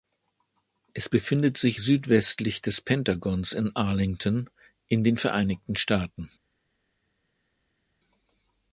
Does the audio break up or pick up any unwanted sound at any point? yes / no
no